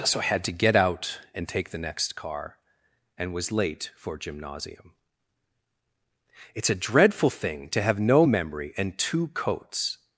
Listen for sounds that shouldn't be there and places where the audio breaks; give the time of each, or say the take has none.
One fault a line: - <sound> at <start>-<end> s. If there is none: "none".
none